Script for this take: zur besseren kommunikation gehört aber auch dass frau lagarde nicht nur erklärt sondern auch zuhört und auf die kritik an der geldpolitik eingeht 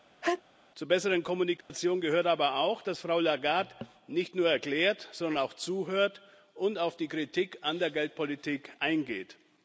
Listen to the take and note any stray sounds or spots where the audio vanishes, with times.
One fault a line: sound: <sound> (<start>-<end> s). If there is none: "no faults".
sound: sneeze (0.2-0.4 s)
sound: dropout (1.6-1.7 s)